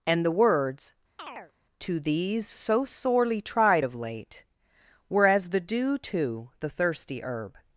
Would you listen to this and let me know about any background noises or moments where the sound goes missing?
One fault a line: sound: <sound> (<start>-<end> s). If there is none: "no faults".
sound: chirp (1.2-1.5 s)